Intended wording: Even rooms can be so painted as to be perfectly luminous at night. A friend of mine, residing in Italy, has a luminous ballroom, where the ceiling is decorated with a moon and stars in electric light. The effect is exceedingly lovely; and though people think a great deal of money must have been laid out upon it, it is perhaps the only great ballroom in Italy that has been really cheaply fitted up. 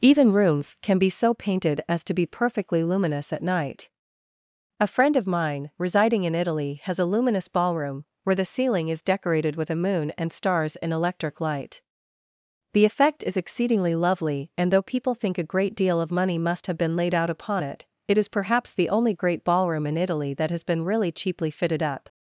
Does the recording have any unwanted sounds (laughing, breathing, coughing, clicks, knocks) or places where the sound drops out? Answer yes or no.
no